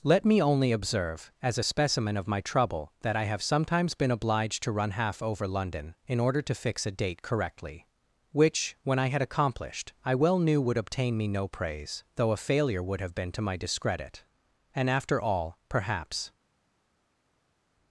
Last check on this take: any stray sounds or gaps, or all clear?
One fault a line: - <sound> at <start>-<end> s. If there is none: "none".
none